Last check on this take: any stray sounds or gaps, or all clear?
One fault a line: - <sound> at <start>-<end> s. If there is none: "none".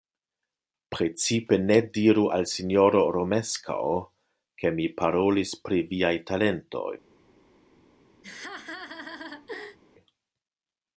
- laugh at 8.2-9.8 s